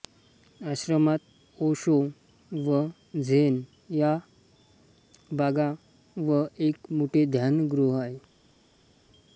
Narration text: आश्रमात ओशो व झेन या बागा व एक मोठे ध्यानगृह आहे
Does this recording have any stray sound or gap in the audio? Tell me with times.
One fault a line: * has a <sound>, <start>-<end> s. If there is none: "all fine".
all fine